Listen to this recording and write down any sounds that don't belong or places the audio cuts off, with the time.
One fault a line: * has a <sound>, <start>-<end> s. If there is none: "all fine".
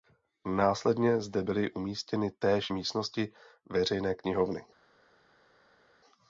all fine